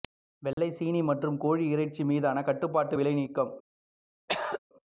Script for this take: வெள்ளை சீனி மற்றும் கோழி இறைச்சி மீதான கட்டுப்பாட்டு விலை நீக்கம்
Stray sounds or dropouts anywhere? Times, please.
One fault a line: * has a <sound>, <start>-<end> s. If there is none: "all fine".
* has a dropout, 0.5-0.6 s
* has a throat clearing, 4.3-4.6 s